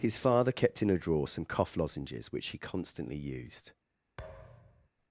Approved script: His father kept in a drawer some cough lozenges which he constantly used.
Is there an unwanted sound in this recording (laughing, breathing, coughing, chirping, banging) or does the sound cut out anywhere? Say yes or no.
yes